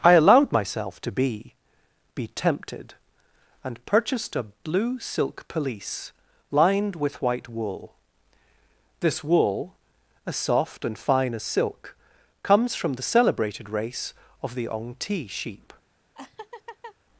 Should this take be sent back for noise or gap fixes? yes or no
yes